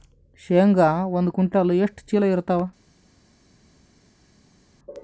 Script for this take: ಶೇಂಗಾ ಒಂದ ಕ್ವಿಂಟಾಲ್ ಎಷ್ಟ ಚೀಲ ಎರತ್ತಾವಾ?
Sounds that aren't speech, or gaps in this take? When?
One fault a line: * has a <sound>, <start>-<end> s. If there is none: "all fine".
all fine